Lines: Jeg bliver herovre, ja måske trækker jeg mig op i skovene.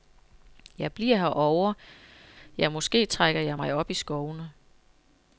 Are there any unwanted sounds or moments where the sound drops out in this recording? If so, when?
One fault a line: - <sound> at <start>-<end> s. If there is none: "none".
none